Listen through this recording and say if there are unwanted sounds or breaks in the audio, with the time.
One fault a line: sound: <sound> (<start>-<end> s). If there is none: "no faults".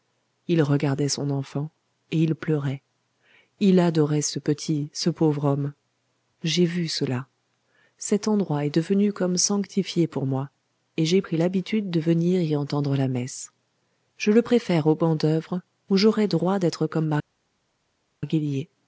no faults